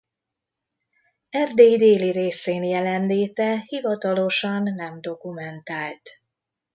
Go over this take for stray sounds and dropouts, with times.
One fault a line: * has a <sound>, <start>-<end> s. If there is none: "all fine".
all fine